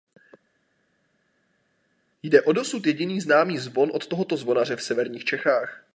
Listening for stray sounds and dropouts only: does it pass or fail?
pass